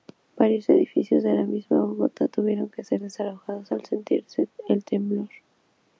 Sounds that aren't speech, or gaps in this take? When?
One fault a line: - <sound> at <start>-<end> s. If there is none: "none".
none